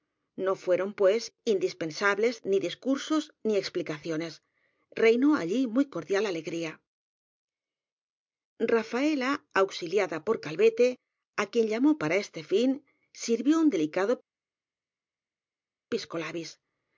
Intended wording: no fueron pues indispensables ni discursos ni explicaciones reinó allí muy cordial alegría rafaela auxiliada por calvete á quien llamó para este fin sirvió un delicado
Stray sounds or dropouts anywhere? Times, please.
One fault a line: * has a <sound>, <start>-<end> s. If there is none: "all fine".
all fine